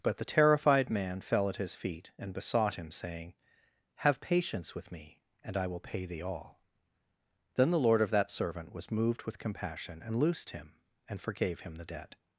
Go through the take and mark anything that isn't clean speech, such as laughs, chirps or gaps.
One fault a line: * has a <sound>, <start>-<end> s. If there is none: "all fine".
all fine